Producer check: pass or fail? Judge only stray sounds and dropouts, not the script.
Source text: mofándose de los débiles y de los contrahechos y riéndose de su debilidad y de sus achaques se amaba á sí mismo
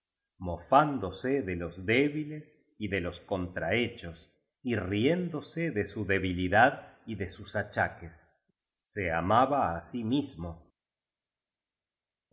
pass